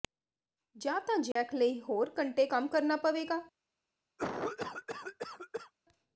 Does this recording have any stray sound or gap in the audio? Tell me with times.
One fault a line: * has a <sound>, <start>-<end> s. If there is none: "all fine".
* has a dropout, 1.3-1.4 s
* has a cough, 4.2-5.7 s